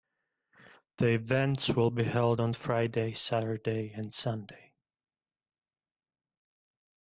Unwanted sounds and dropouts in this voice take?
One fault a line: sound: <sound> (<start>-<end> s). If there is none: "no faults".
no faults